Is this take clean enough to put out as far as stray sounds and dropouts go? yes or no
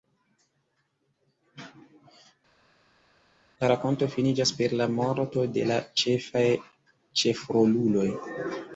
yes